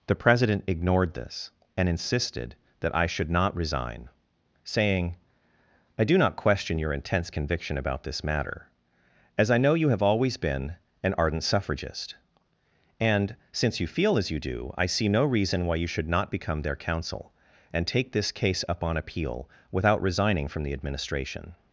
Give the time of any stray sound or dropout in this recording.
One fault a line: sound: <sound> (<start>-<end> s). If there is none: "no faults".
no faults